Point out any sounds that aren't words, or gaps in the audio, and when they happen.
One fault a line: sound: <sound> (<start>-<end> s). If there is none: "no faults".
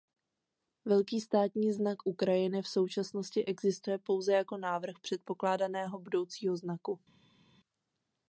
no faults